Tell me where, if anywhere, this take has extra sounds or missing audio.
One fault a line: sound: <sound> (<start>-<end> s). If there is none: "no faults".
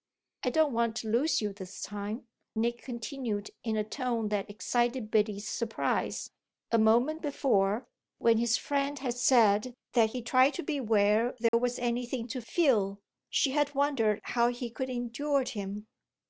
sound: dropout (11.5-11.5 s)